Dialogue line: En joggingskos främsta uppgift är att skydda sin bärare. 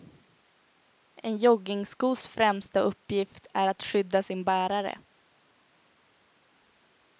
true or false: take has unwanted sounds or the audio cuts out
false